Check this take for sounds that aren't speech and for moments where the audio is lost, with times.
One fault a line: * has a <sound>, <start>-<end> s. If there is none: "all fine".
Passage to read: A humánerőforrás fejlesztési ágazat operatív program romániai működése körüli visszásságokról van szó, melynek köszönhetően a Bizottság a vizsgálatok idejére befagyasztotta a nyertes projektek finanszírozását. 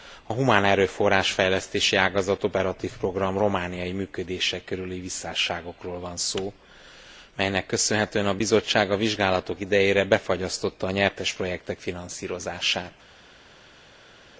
all fine